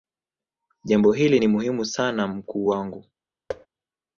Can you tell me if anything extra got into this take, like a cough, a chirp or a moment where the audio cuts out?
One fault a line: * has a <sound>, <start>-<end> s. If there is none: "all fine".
* has a thud, 3.5-3.7 s